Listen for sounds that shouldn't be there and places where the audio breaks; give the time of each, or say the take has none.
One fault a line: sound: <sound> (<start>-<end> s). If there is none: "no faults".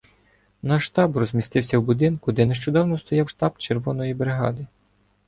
no faults